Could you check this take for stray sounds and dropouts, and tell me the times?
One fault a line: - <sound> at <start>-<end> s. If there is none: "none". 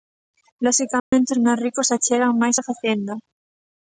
- dropout at 1.0-1.1 s